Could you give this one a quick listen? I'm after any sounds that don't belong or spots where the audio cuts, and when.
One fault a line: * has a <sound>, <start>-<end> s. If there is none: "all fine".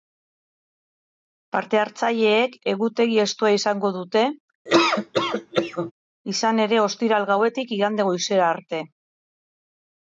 * has a laugh, 4.7-5.9 s